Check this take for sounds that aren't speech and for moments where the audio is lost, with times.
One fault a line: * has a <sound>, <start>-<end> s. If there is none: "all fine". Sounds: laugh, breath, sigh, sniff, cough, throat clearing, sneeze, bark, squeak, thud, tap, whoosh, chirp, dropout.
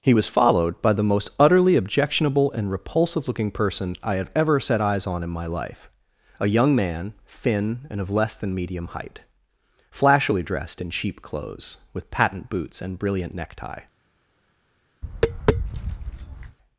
* has a tap, 15.0-16.6 s